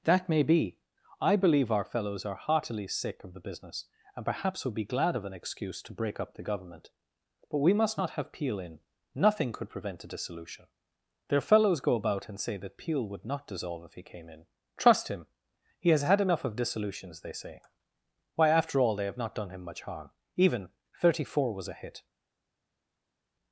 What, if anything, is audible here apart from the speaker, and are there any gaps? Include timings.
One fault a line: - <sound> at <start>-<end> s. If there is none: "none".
none